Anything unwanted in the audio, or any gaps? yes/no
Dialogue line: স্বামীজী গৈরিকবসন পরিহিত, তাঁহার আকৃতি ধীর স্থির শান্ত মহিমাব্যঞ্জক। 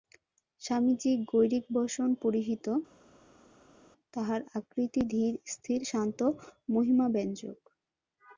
no